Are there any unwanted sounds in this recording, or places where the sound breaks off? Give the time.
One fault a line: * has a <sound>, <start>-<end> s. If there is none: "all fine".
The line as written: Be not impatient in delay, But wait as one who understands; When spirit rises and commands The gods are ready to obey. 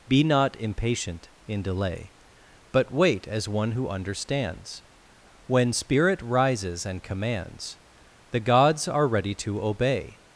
all fine